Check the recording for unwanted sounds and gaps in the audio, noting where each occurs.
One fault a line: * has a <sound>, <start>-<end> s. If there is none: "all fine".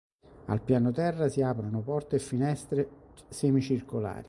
all fine